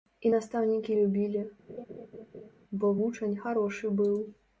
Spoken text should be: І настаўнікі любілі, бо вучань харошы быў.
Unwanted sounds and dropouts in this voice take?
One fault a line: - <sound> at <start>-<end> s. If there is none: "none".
- laugh at 1.7-2.5 s